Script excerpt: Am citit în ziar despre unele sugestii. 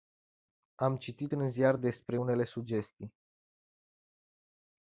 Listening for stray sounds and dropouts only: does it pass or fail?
pass